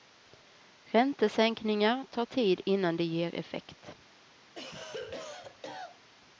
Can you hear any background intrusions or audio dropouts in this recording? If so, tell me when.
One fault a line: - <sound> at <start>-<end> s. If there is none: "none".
- cough at 4.5-6.1 s